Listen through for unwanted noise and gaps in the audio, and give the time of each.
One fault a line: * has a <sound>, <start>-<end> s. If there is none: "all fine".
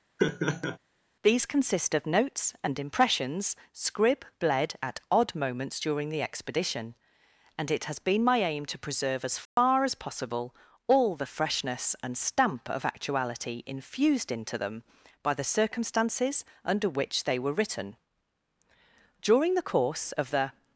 * has a laugh, 0.2-0.8 s
* has a dropout, 9.5-9.6 s